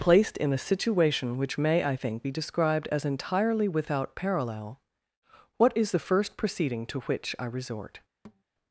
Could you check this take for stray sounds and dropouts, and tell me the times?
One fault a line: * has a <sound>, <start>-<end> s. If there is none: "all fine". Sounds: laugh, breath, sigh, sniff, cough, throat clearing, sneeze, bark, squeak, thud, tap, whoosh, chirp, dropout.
* has a thud, 8.2-8.4 s